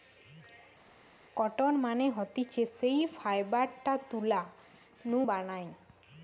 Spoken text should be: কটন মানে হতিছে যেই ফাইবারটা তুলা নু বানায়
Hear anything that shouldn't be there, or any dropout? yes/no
no